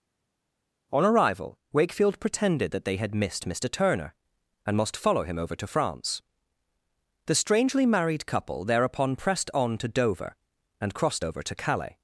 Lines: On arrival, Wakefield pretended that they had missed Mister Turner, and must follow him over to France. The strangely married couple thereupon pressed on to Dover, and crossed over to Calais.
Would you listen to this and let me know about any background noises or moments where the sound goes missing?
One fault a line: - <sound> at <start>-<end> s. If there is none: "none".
none